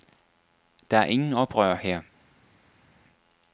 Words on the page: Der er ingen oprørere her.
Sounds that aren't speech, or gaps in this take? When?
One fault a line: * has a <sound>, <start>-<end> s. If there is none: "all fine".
all fine